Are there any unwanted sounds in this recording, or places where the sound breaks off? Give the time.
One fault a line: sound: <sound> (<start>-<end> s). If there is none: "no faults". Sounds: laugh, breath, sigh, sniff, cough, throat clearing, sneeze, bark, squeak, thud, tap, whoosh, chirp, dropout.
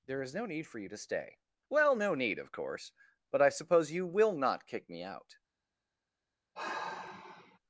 sound: sigh (6.6-7.6 s)